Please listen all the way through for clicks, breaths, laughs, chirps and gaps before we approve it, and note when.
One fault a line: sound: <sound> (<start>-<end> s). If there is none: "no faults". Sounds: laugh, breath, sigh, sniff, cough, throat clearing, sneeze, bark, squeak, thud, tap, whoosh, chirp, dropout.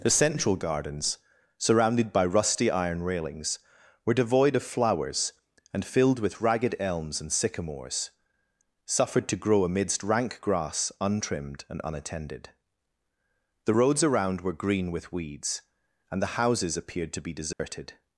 sound: dropout (17.5-17.6 s)